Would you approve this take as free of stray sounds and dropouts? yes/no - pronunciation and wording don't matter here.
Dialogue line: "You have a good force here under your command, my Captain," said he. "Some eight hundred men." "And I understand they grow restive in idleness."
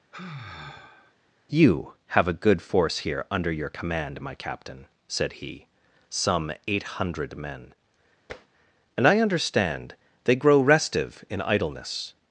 no